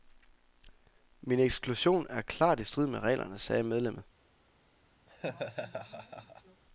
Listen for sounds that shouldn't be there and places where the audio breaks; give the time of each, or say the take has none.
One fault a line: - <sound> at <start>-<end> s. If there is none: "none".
- laugh at 5.1-6.6 s